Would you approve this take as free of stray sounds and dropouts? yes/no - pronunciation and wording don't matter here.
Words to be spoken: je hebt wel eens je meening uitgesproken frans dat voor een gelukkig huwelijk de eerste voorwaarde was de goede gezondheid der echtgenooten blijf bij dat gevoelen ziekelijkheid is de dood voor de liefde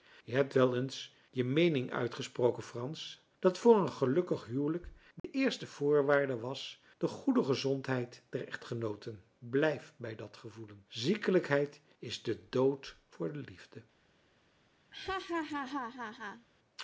no